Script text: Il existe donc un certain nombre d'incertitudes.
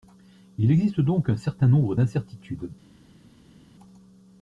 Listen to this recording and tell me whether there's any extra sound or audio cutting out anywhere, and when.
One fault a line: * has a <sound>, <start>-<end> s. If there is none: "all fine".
all fine